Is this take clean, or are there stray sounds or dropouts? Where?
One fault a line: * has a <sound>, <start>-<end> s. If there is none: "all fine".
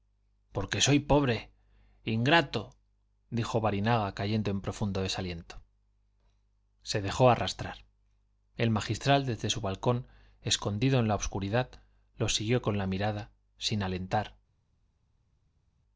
all fine